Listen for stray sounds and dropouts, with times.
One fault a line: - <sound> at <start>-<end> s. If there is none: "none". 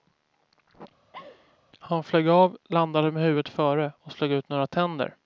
- laugh at 1.1-1.6 s